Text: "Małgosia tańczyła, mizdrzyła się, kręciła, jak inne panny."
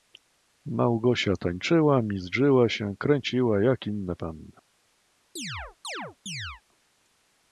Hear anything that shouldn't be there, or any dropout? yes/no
yes